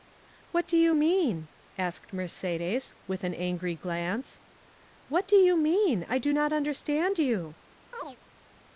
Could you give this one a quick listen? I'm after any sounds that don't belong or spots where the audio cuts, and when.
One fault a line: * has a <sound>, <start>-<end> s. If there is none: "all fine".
* has a chirp, 7.9-8.2 s